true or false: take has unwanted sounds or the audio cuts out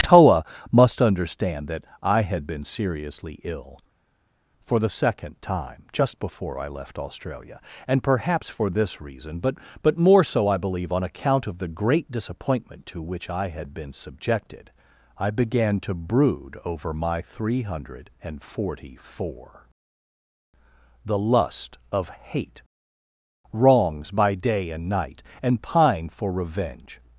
false